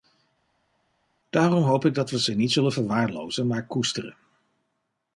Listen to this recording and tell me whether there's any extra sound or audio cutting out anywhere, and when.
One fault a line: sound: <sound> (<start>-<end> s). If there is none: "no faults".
no faults